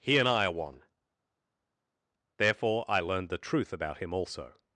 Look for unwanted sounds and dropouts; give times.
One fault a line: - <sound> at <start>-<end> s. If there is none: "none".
none